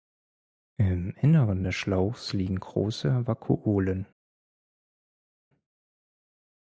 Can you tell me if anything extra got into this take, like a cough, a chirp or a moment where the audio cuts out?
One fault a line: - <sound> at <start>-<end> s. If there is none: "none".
none